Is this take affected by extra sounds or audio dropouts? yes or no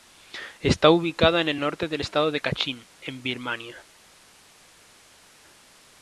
no